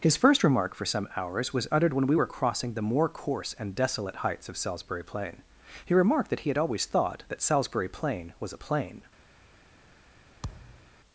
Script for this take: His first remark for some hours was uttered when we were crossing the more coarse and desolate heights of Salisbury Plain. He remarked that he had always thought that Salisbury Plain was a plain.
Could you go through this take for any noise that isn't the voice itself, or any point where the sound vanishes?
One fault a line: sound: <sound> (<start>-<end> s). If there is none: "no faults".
sound: thud (10.4-10.9 s)